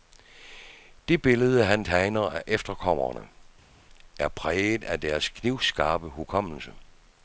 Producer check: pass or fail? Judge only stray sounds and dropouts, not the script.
pass